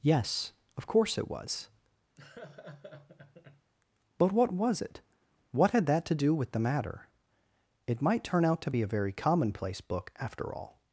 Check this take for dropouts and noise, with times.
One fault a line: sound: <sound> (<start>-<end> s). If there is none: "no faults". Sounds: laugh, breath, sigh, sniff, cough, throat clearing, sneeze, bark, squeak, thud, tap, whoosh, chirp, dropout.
sound: laugh (2.2-3.7 s)